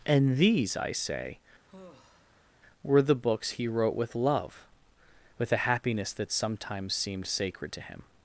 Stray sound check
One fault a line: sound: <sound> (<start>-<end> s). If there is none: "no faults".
sound: sigh (1.7-2.5 s)